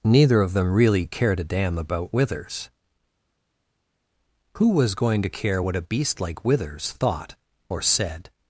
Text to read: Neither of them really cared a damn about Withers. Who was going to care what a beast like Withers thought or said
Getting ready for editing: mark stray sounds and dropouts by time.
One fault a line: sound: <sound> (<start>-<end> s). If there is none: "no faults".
no faults